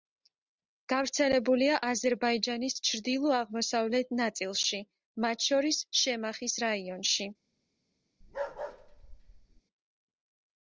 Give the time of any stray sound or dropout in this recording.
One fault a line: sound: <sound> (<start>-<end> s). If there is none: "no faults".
sound: bark (8.2-9.6 s)